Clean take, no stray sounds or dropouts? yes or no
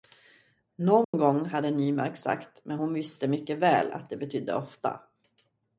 no